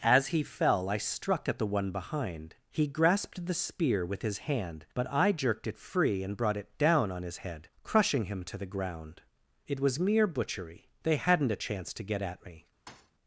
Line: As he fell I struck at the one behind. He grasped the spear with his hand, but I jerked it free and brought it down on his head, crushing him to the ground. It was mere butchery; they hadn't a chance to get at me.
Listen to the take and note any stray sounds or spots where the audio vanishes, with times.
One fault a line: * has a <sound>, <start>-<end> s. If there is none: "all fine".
* has a thud, 12.9-13.1 s